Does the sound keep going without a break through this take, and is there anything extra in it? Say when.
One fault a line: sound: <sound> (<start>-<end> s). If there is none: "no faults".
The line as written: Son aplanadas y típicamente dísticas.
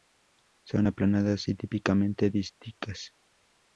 no faults